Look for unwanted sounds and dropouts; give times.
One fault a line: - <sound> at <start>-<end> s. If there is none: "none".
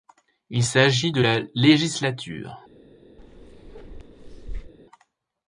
- bark at 3.2-4.7 s